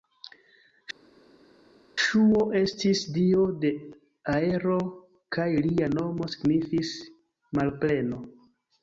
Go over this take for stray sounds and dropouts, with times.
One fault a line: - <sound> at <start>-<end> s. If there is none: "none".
none